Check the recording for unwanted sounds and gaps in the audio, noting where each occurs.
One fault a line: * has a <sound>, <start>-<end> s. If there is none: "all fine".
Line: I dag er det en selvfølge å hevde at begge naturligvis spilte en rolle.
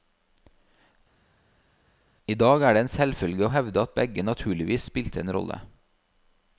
all fine